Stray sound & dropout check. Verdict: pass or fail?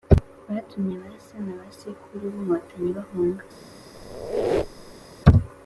fail